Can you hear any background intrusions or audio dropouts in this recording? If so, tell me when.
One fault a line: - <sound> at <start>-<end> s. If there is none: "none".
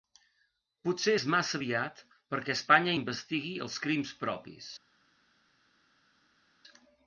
none